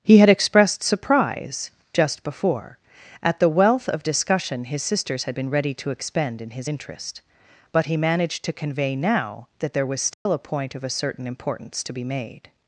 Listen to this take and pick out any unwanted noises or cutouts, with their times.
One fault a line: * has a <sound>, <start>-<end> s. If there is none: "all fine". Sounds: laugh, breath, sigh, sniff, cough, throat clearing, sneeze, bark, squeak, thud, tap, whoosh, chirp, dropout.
* has a dropout, 10.1-10.3 s